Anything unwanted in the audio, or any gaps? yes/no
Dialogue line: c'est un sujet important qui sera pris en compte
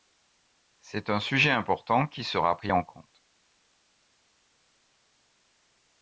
no